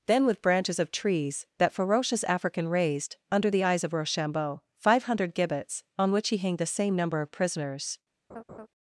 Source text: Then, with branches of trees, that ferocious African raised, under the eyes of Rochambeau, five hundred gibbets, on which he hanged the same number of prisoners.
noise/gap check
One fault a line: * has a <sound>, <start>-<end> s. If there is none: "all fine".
* has a laugh, 8.3-8.7 s